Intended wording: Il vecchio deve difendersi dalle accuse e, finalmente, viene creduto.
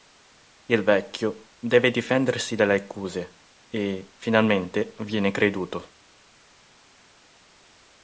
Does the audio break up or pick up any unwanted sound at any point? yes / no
no